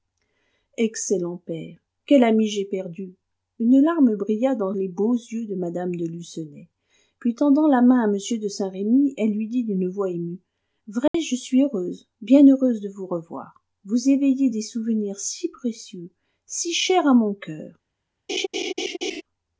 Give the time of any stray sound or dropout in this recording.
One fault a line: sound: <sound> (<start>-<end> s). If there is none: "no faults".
sound: dropout (11.1-11.1 s)
sound: laugh (18.3-19.2 s)